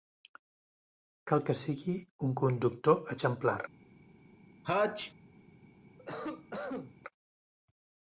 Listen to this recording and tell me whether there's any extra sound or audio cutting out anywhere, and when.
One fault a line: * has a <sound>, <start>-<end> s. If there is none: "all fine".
* has a sneeze, 4.6-5.1 s
* has a cough, 6.0-6.9 s